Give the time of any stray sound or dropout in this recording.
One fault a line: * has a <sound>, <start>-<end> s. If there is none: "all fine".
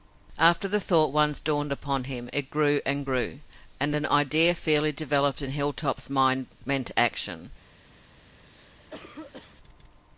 * has a cough, 8.4-9.6 s